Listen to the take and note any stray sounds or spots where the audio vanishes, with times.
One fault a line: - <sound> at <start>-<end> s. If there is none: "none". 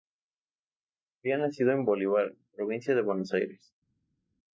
none